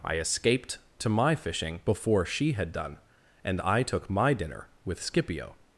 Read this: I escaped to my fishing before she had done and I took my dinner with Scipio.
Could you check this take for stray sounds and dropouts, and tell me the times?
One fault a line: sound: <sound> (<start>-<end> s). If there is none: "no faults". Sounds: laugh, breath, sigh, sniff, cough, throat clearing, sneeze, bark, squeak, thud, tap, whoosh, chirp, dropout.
no faults